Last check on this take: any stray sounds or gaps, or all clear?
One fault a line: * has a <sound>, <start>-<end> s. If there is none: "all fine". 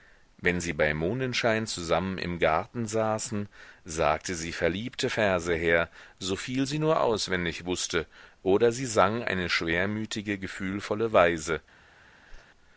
* has a whoosh, 12.3-12.5 s